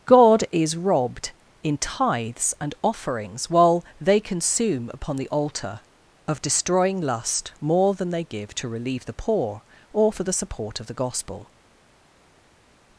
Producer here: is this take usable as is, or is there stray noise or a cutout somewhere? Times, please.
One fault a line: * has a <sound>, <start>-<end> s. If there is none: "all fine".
all fine